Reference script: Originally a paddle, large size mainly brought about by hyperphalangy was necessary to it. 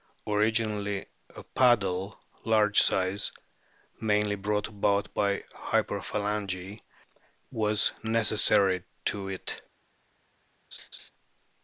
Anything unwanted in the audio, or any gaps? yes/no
yes